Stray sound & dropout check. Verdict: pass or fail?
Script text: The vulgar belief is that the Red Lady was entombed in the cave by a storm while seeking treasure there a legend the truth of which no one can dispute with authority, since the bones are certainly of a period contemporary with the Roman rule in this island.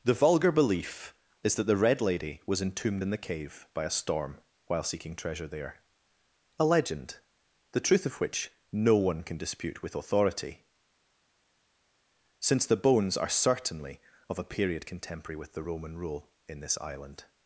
pass